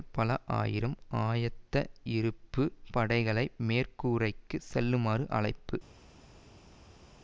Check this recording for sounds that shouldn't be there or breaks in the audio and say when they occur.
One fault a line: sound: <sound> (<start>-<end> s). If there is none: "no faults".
no faults